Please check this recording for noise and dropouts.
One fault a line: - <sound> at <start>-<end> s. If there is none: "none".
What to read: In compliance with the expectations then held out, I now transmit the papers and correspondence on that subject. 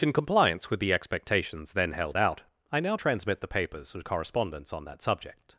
none